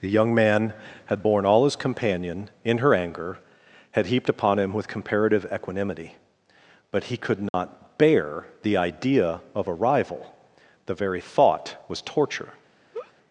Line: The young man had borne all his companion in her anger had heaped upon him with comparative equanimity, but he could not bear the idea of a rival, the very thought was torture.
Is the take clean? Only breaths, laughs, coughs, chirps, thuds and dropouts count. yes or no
no